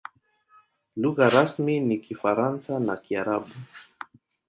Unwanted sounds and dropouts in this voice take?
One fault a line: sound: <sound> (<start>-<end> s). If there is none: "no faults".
no faults